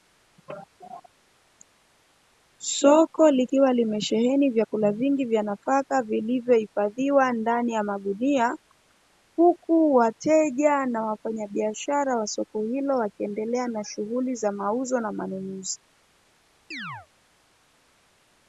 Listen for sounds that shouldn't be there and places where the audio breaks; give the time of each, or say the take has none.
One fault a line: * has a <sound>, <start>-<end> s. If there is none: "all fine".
* has a chirp, 16.7-17.1 s